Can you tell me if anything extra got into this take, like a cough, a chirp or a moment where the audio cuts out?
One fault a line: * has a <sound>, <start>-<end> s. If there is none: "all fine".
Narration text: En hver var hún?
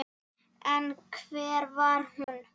* has a dropout, 2.2-2.3 s